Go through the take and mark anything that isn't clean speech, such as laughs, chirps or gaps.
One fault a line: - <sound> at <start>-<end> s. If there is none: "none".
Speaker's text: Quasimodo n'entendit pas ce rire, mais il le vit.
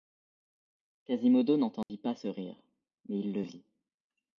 - dropout at 1.8-1.9 s